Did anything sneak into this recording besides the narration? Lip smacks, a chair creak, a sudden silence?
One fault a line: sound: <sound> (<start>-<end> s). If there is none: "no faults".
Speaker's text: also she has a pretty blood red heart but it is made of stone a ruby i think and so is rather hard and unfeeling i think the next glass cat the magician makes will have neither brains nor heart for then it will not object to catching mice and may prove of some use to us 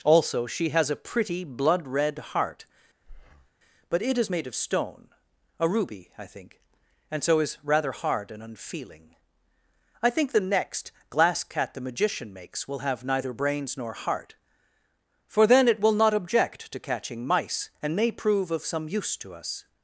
sound: breath (3.0-3.5 s)